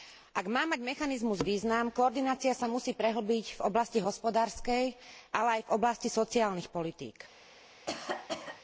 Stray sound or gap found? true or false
true